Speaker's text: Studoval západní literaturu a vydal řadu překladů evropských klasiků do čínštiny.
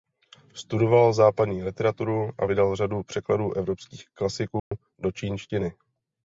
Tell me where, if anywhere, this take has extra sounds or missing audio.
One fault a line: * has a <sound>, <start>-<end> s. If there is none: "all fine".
* has a dropout, 4.6-4.7 s